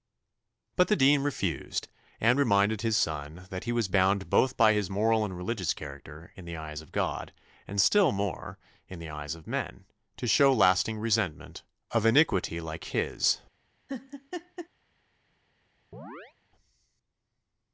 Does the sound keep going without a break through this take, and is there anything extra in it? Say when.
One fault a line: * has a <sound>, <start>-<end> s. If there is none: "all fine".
* has a laugh, 13.9-14.7 s
* has a chirp, 15.9-16.3 s